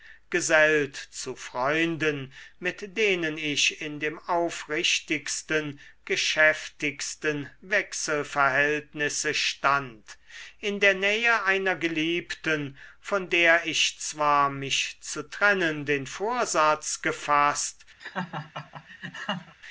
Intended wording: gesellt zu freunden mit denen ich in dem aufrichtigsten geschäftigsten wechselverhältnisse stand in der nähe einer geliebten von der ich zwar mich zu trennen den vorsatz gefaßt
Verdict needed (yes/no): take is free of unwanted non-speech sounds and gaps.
no